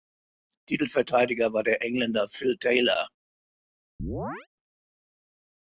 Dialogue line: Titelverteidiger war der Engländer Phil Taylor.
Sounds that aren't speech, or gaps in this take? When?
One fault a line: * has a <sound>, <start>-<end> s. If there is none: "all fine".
* has a chirp, 4.0-4.5 s